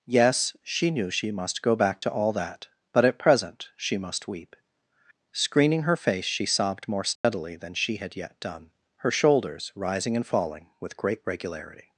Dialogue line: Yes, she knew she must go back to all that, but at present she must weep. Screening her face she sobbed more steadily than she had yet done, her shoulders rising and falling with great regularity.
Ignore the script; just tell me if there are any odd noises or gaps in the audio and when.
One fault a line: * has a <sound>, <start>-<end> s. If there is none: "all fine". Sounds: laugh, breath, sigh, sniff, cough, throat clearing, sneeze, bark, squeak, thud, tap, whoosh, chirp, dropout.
* has a dropout, 7.2-7.2 s